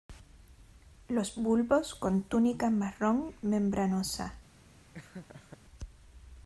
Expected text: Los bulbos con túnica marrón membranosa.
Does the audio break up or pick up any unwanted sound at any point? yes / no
yes